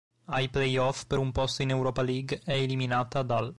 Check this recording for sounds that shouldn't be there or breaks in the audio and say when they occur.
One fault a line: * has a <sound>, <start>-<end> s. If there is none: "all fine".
all fine